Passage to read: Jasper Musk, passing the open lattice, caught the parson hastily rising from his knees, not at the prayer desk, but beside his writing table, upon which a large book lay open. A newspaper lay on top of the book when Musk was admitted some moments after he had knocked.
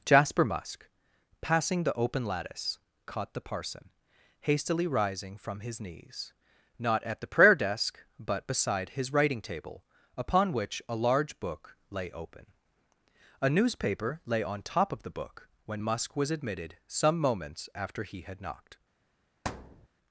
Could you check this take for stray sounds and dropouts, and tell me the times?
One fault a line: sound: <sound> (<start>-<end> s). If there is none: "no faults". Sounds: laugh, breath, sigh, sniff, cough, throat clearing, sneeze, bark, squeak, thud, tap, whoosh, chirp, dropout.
sound: thud (19.4-19.9 s)